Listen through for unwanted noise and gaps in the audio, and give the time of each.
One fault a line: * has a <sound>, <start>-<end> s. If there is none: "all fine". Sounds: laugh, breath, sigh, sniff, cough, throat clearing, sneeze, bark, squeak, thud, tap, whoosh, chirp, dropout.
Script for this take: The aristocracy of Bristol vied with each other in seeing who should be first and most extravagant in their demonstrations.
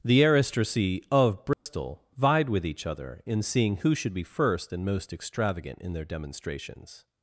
* has a dropout, 1.5-1.7 s